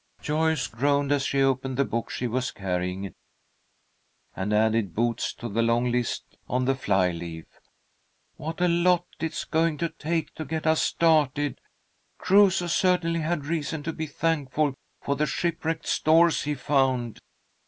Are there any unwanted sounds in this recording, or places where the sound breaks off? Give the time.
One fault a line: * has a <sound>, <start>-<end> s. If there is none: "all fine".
all fine